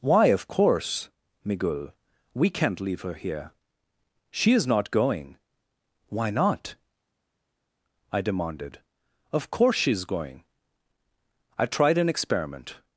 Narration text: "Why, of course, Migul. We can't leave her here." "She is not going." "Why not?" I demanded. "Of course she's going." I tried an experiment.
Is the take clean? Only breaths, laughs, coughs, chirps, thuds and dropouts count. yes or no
yes